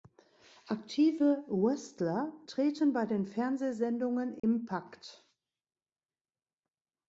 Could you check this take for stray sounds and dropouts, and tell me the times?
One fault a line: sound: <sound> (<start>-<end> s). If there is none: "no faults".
sound: dropout (4.4-4.4 s)